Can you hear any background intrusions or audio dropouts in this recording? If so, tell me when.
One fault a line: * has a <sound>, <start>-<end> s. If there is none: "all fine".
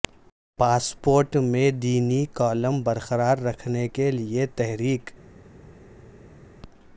all fine